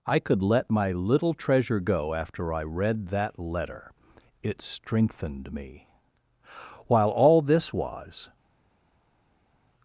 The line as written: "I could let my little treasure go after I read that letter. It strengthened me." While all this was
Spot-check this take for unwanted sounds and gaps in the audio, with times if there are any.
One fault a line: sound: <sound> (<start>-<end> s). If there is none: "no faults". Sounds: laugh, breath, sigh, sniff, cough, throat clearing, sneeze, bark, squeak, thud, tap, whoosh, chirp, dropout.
no faults